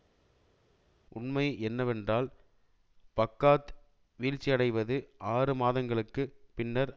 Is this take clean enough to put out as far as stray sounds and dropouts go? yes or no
yes